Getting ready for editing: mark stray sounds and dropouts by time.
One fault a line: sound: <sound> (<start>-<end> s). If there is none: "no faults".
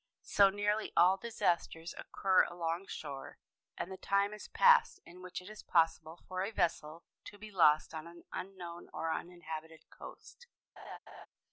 sound: laugh (10.8-11.3 s)